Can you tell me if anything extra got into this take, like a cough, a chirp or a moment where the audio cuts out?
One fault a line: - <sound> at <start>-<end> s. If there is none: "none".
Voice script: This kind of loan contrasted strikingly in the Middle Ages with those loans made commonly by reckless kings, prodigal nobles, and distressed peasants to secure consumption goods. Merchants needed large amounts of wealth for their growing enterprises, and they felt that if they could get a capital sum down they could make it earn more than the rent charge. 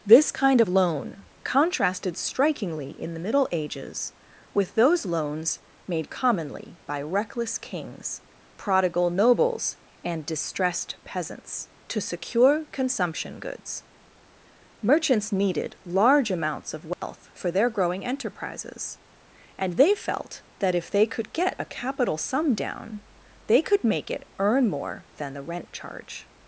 - dropout at 16.9-17.0 s